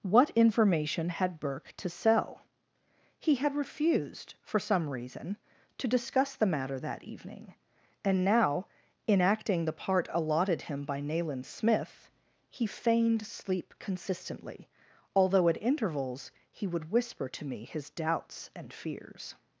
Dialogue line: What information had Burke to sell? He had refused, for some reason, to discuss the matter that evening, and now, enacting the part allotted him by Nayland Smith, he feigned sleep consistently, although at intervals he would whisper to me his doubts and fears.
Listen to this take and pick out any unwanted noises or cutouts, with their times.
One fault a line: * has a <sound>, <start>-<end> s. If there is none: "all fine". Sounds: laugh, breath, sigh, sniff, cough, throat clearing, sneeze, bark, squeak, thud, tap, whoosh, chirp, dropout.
all fine